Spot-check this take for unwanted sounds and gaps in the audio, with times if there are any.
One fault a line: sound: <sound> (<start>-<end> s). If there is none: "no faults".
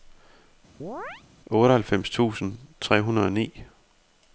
sound: chirp (0.8-1.2 s)